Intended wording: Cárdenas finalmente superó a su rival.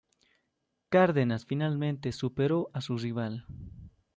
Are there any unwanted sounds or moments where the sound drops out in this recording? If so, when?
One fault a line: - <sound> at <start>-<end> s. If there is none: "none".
none